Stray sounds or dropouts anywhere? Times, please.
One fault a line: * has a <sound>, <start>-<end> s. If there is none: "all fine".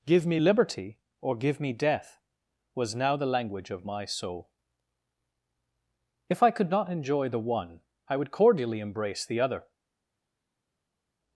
all fine